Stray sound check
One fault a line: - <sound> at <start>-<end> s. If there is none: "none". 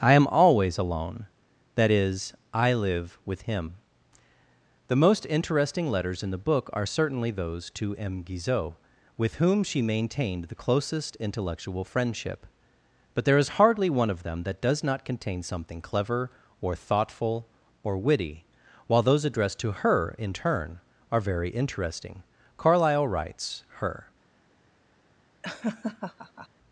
- laugh at 25.4-26.5 s